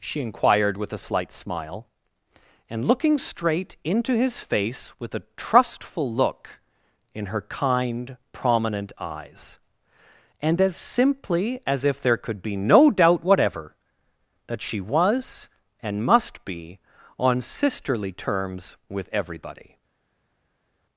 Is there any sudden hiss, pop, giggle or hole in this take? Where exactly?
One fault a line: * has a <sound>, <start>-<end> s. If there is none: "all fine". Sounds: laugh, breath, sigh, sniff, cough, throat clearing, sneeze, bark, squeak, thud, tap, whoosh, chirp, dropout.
all fine